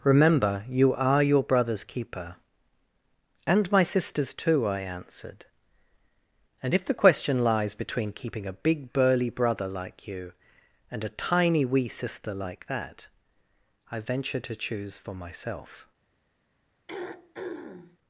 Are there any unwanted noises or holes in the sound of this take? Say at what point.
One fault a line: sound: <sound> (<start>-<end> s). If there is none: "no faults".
sound: throat clearing (16.9-18.0 s)